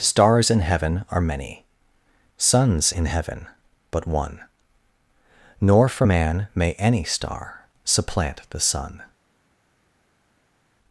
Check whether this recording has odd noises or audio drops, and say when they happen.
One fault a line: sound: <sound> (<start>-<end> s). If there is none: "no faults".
no faults